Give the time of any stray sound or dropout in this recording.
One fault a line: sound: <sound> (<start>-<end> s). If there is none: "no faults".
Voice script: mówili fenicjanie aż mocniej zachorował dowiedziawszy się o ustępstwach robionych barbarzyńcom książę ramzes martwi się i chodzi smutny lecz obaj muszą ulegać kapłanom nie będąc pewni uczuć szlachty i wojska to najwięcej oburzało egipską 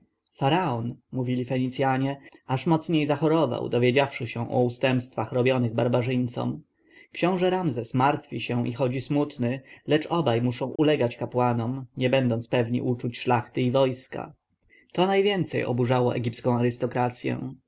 sound: dropout (10.8-10.8 s)